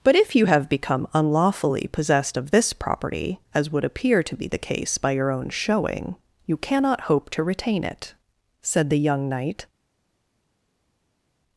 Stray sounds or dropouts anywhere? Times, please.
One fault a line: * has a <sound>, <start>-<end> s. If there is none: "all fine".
all fine